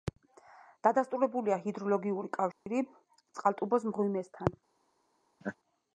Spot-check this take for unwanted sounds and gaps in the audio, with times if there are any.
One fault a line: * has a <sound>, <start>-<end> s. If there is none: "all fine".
* has a dropout, 2.5-2.7 s
* has a laugh, 5.4-5.6 s